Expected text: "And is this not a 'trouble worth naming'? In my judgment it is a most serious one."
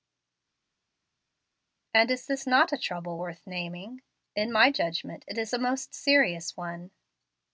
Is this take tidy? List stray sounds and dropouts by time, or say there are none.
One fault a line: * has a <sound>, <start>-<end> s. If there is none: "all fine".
all fine